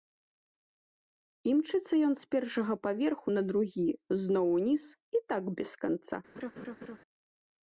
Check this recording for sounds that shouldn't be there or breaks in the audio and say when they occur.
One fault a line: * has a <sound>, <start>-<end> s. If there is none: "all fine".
* has a laugh, 6.4-7.0 s